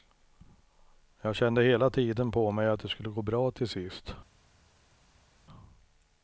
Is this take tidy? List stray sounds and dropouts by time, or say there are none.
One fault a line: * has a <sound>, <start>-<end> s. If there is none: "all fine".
all fine